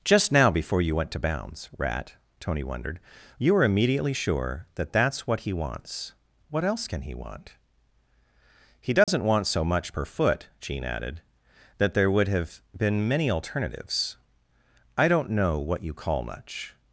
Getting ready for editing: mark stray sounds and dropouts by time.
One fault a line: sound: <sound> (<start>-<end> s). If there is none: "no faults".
sound: dropout (9.0-9.1 s)